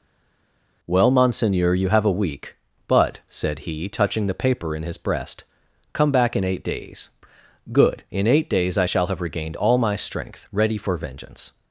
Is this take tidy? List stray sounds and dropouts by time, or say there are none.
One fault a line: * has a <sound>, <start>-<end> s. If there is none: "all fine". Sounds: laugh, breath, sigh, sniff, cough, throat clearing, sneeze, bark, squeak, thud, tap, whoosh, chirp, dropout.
all fine